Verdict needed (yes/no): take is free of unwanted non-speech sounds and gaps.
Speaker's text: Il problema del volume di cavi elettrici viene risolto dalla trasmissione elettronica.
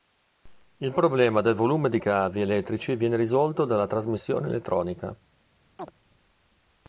no